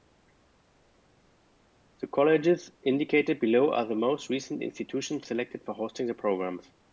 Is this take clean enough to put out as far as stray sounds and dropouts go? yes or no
yes